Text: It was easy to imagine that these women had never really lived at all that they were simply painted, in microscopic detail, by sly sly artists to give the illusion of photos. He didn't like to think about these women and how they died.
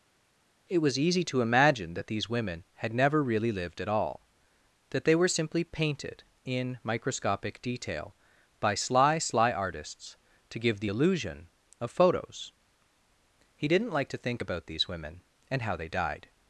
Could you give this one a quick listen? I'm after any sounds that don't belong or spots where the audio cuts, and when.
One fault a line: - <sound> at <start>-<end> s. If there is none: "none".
none